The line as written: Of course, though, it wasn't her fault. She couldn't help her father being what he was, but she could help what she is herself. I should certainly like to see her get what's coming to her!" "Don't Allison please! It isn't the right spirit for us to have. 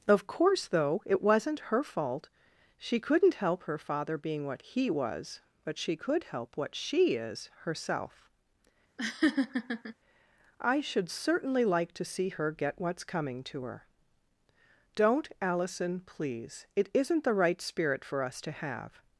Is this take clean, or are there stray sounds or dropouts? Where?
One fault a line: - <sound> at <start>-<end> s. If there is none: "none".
- laugh at 9.0-9.9 s